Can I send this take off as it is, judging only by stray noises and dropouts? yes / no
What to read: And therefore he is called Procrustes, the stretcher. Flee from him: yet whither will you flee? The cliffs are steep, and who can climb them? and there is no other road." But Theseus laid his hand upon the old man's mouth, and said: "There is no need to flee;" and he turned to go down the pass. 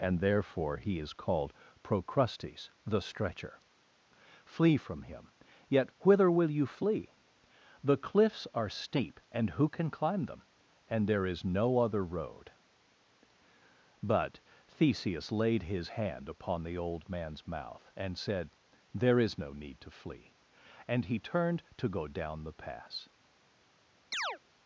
no